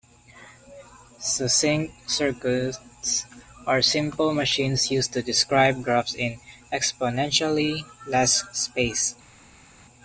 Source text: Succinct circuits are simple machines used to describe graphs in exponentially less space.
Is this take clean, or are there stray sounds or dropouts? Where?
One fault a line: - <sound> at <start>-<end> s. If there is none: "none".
none